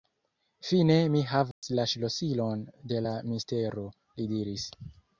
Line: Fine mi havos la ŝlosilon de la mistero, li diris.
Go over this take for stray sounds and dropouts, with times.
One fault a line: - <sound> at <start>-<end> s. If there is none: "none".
- dropout at 1.5-1.6 s